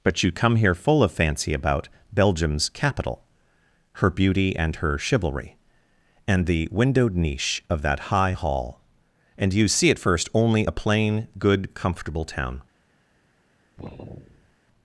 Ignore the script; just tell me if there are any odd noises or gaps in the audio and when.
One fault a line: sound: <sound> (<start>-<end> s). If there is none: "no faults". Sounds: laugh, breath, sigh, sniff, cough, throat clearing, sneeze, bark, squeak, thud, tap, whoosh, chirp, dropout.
sound: sigh (13.8-14.6 s)